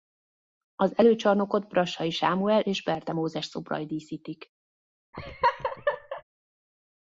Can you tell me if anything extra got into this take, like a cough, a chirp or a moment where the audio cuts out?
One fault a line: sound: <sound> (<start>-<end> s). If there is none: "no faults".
sound: laugh (5.1-6.2 s)